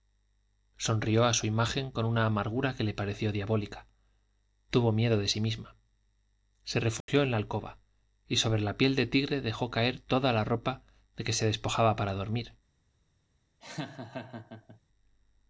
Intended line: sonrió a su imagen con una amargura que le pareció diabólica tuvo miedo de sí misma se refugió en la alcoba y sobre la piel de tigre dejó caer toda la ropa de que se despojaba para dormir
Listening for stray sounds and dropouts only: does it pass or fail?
fail